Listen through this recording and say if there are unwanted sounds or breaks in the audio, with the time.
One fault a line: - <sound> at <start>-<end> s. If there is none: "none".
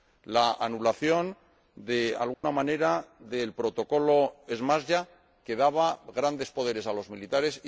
- dropout at 2.3-2.4 s